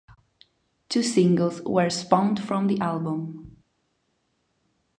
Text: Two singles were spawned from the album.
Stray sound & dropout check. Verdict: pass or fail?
pass